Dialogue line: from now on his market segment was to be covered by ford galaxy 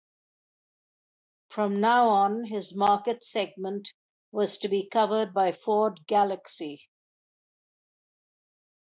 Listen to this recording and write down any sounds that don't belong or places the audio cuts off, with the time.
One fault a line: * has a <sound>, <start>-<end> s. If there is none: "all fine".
all fine